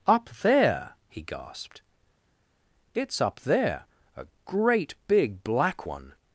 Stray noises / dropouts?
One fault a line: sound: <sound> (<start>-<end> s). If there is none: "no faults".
no faults